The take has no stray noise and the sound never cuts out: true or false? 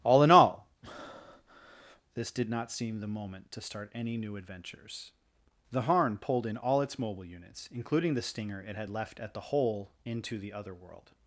false